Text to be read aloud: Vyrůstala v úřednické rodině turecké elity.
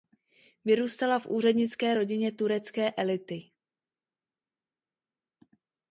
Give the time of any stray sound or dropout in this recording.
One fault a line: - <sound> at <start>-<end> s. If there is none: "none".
none